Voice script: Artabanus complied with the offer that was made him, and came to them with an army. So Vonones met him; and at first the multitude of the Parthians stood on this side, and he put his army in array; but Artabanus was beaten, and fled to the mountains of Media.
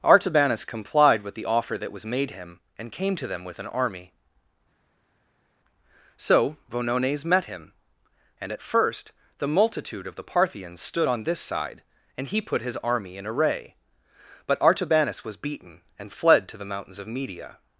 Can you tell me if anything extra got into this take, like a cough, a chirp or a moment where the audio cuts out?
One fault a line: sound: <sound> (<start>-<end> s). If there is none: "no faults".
no faults